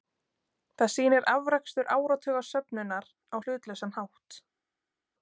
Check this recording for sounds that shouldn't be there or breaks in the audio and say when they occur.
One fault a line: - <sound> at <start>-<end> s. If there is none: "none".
none